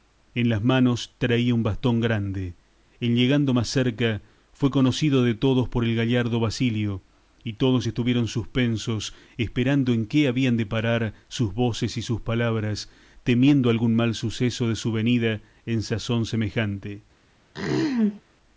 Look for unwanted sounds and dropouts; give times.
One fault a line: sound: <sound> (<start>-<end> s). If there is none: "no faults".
sound: throat clearing (17.5-18.2 s)